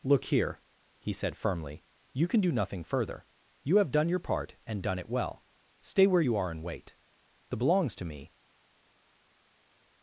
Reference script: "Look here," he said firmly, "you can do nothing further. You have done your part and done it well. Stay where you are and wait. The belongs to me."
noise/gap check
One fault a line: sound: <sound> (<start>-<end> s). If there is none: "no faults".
no faults